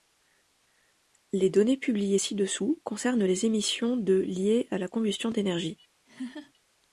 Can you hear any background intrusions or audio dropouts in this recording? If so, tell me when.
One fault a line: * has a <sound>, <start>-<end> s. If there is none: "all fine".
* has a laugh, 6.1-6.5 s